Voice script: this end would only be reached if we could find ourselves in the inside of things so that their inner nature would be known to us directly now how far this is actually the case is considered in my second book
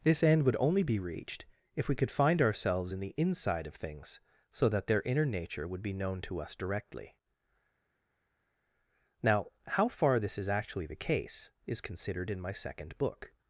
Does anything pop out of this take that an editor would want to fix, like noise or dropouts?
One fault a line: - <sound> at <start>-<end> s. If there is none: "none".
none